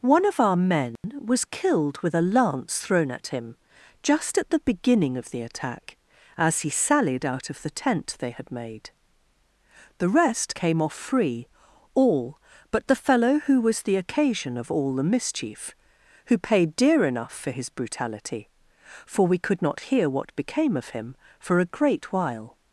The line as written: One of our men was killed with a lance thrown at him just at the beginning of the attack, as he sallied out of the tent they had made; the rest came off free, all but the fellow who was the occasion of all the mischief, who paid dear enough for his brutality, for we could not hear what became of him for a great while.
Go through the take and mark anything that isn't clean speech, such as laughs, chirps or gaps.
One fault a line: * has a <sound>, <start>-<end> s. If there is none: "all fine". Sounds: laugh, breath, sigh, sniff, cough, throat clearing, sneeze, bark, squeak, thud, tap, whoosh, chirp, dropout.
* has a dropout, 1.0-1.0 s